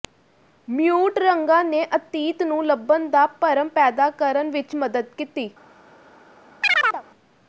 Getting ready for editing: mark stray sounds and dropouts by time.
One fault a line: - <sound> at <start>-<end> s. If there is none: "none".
- chirp at 6.6-7.0 s